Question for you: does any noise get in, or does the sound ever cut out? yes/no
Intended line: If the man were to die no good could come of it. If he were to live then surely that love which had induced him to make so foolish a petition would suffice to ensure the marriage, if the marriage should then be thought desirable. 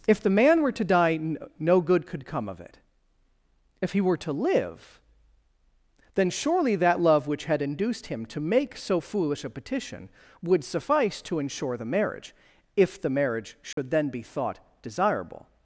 yes